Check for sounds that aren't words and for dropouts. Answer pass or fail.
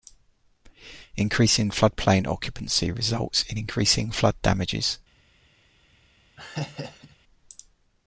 fail